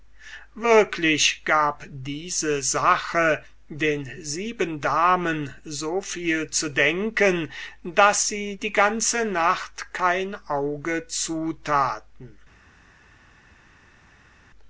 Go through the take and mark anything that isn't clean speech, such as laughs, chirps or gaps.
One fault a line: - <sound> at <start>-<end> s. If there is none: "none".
none